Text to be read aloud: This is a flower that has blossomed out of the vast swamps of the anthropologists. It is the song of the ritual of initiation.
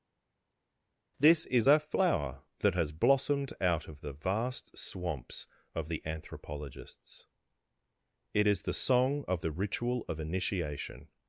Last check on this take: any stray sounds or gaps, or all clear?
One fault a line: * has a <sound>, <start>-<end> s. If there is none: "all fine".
all fine